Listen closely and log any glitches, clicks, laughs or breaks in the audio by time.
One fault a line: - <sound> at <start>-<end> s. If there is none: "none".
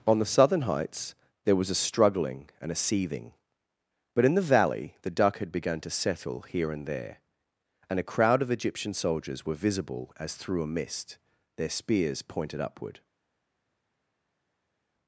none